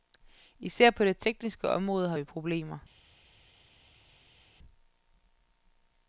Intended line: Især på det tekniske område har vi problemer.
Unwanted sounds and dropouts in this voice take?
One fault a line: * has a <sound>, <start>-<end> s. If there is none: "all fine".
all fine